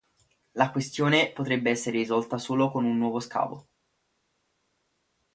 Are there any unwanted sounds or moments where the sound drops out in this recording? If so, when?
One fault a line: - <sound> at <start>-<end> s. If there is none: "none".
none